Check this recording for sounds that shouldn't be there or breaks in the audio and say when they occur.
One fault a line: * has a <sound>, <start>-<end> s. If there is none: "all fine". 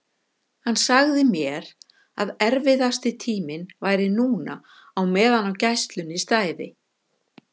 all fine